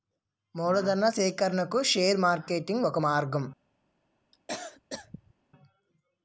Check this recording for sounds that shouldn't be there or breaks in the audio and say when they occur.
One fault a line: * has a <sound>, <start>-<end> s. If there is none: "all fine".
* has a cough, 4.3-5.3 s